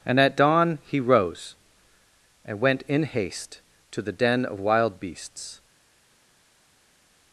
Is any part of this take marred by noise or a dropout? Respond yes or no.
no